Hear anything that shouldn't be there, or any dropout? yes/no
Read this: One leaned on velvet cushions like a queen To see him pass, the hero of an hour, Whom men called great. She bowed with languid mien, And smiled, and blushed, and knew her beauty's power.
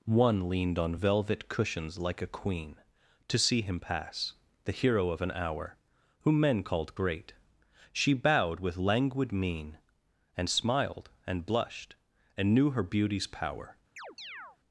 yes